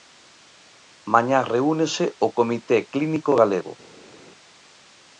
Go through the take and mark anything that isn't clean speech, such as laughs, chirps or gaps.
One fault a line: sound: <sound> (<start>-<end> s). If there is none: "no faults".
no faults